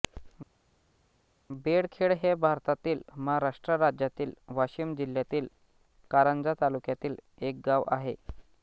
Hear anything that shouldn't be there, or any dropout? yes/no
no